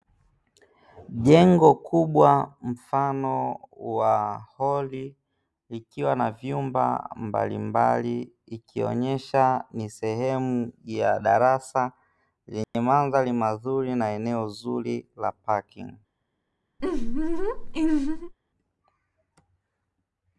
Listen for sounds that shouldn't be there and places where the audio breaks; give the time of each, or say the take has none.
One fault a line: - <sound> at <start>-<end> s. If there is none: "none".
- dropout at 12.6-12.7 s
- laugh at 16.8-18.3 s